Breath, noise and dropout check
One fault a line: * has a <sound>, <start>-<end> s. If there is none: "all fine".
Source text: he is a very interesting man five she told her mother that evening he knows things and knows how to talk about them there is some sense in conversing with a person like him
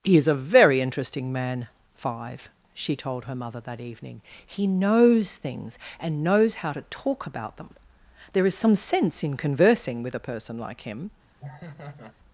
* has a laugh, 11.4-12.2 s